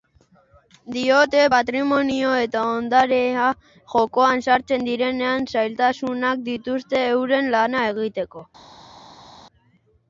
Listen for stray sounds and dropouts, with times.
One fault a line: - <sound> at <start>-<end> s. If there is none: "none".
none